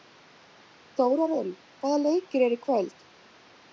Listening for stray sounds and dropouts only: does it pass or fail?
pass